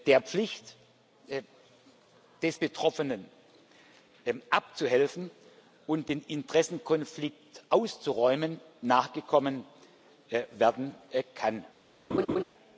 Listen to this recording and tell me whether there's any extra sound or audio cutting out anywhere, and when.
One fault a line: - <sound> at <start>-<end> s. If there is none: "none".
- laugh at 12.1-12.4 s